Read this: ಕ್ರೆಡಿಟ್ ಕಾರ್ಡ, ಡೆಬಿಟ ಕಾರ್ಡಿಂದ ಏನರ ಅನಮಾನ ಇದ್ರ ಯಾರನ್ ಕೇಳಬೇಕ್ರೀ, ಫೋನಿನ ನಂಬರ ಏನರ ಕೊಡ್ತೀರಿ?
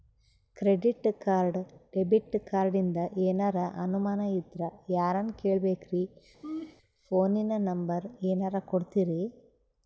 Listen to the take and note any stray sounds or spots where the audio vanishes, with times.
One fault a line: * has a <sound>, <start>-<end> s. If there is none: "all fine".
* has a laugh, 6.4-6.8 s